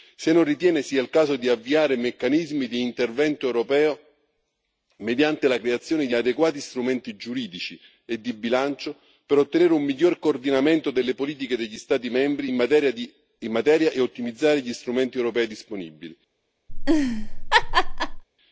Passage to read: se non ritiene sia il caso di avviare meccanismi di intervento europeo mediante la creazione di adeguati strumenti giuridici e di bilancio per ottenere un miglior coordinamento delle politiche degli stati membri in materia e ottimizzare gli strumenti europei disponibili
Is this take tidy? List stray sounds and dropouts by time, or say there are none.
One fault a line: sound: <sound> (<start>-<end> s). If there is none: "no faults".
sound: laugh (16.7-18.2 s)